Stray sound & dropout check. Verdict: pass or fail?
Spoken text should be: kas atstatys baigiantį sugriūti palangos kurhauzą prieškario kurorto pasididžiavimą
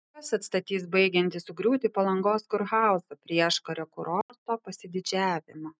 fail